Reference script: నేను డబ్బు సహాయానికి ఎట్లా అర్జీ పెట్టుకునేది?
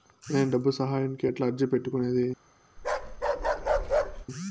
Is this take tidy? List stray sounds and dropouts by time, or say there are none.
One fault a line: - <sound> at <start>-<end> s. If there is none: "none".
- bark at 2.8-4.3 s